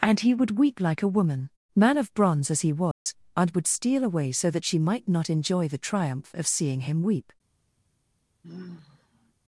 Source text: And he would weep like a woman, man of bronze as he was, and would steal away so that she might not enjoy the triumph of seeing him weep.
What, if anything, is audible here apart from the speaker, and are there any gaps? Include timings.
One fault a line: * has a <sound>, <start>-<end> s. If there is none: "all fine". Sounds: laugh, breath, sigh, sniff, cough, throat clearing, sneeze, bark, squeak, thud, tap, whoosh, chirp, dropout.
* has a dropout, 2.9-3.1 s
* has a sigh, 8.4-9.3 s